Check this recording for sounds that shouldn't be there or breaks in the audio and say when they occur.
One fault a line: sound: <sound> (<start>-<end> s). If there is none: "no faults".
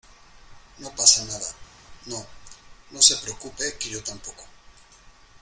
no faults